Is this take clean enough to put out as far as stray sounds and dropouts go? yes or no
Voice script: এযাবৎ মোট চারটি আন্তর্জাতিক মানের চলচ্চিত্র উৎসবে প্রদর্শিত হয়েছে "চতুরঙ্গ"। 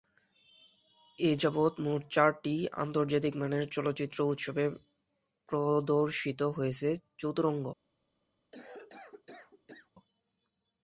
no